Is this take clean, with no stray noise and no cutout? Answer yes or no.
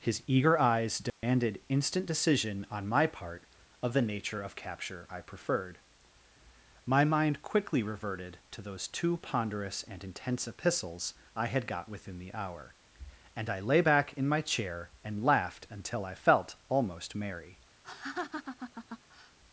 no